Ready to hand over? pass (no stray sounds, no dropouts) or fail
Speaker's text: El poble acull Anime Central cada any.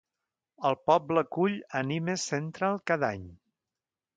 pass